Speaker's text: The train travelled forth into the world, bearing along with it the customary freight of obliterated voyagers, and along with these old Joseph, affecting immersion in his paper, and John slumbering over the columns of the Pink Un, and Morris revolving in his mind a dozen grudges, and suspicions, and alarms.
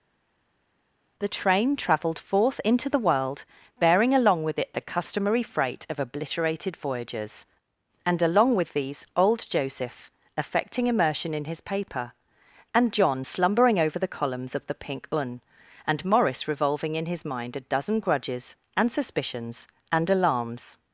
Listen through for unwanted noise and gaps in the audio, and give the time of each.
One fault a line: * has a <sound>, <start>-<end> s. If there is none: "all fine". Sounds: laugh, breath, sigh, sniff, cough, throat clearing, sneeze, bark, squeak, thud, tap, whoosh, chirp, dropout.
all fine